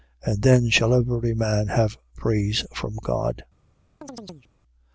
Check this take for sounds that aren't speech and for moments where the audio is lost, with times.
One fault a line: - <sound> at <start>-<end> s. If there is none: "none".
- chirp at 4.0-4.5 s